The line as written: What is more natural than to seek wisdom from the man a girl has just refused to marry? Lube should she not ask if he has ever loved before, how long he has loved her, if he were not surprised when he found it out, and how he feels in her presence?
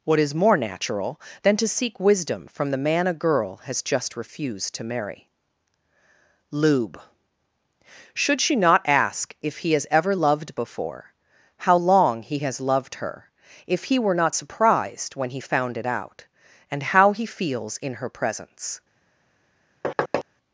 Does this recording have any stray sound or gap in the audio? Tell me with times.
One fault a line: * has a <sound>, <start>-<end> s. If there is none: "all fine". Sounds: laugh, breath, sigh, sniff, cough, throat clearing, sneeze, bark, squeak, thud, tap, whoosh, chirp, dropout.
* has a thud, 19.8-20.2 s